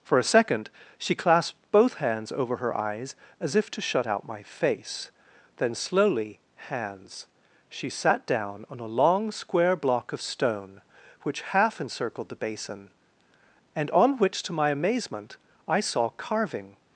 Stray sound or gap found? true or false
false